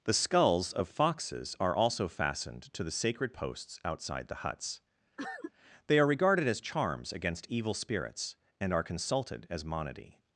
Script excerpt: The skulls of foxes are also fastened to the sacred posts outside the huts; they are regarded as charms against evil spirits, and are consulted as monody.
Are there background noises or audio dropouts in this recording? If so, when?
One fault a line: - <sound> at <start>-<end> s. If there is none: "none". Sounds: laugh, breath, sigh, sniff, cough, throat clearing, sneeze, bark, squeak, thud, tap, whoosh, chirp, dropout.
- cough at 5.2-5.5 s